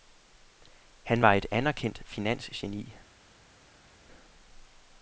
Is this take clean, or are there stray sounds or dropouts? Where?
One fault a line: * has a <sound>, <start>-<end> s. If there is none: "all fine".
all fine